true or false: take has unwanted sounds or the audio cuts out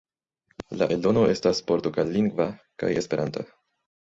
false